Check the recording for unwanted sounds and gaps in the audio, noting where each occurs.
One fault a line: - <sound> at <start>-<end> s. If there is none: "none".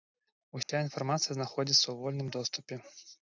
- dropout at 0.6-0.7 s